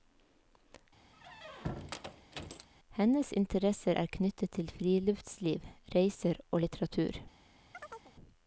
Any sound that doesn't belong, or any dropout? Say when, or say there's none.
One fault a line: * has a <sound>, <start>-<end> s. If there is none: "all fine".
* has a squeak, 1.1-2.7 s
* has a chirp, 7.7-8.1 s